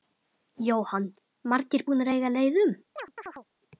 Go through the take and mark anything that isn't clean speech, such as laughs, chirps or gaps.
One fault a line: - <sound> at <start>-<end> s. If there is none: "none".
- chirp at 3.0-3.5 s